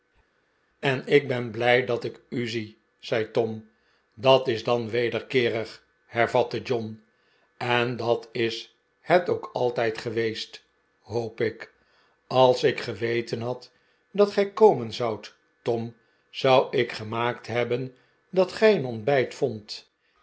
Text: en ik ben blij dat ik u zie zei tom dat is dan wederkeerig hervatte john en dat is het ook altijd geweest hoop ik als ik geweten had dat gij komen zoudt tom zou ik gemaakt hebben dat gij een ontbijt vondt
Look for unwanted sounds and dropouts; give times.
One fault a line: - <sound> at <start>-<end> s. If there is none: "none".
none